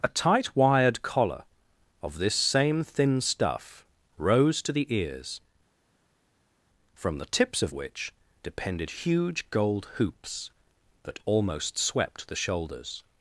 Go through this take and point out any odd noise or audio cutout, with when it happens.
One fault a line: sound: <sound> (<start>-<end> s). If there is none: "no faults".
no faults